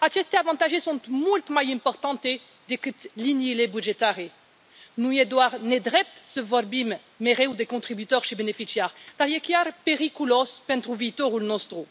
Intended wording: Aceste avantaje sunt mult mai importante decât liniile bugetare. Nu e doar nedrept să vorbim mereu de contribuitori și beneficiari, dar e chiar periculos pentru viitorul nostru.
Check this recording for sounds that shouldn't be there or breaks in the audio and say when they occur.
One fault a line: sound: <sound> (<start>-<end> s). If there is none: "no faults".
no faults